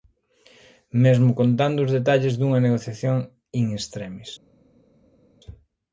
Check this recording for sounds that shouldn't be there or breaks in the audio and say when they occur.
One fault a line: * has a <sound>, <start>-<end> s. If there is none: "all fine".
all fine